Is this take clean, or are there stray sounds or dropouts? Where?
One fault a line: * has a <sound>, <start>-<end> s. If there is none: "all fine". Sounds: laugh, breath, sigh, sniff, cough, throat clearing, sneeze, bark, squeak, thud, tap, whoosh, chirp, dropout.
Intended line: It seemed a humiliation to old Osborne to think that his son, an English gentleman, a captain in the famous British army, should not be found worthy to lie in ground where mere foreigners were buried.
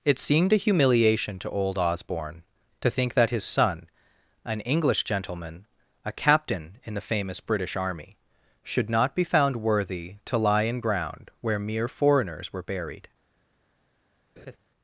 * has a laugh, 14.4-14.6 s